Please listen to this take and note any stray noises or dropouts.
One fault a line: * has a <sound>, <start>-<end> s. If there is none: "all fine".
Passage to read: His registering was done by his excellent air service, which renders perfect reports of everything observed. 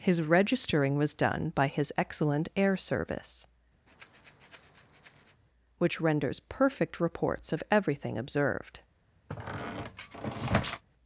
* has a breath, 3.9-5.4 s
* has a squeak, 9.3-10.8 s